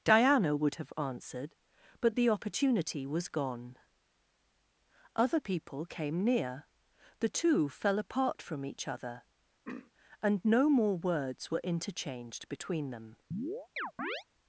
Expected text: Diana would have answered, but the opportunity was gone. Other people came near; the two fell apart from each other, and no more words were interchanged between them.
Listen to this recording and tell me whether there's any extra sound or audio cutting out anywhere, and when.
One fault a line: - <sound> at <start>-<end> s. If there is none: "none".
- throat clearing at 9.6-9.9 s
- chirp at 13.3-14.2 s